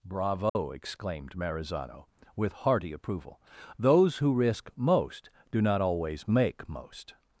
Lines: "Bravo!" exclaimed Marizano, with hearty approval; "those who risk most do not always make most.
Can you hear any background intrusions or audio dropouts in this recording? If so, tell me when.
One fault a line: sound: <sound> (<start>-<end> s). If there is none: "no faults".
sound: dropout (0.5-0.6 s)